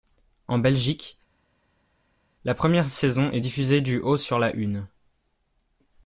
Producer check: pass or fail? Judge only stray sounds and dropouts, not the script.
pass